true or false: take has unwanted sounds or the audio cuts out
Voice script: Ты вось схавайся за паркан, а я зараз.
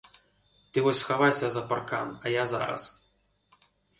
false